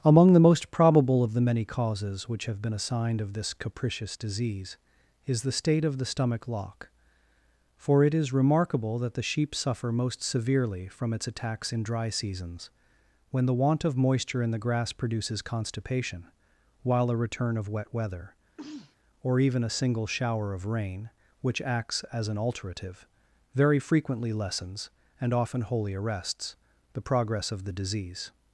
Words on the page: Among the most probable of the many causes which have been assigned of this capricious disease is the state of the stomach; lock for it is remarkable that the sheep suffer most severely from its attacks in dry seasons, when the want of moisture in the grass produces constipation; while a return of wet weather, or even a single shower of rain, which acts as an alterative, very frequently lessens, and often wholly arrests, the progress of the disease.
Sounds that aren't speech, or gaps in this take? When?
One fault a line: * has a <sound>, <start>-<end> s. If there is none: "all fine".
* has a sneeze, 18.6-19.0 s